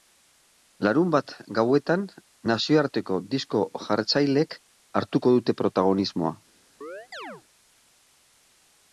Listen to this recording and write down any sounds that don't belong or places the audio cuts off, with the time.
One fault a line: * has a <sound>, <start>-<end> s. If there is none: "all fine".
* has a chirp, 6.8-7.4 s